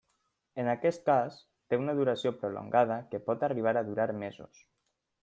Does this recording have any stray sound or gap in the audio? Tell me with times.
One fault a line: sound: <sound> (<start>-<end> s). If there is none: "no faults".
no faults